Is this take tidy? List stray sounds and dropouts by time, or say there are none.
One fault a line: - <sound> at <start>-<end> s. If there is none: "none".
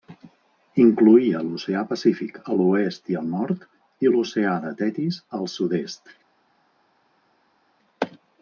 none